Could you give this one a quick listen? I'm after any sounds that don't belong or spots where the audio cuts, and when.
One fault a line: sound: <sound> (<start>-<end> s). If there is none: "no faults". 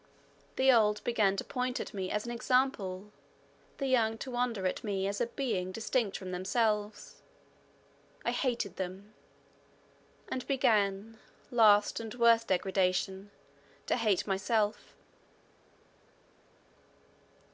no faults